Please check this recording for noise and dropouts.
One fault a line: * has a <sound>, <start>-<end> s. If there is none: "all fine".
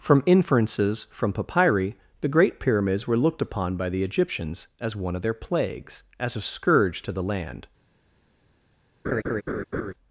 * has a laugh, 9.0-9.9 s